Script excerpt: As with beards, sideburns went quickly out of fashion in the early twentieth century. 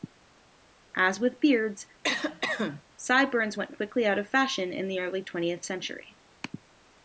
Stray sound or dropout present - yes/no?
yes